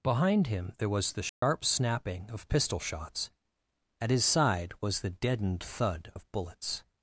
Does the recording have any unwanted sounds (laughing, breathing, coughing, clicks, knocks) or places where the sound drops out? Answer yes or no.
yes